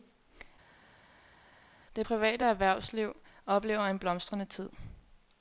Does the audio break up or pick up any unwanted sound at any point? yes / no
no